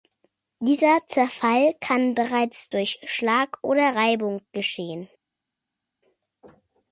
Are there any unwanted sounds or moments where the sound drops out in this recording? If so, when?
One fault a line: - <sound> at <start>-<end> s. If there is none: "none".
none